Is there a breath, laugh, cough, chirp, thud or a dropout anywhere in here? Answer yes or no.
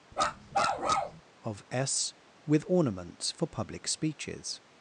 yes